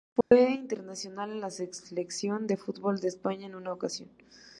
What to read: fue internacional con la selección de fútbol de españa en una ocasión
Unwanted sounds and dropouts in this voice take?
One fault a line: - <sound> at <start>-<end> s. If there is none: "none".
- dropout at 0.2-0.3 s